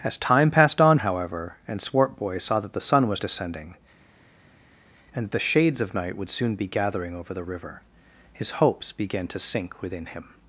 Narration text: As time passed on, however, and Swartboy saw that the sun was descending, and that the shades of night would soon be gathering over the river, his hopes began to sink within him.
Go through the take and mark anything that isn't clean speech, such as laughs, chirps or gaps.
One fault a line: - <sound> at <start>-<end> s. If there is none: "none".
none